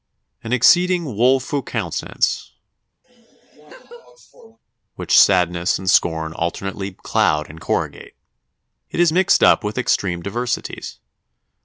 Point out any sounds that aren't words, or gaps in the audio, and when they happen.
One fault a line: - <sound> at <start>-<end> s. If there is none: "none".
- laugh at 3.0-4.6 s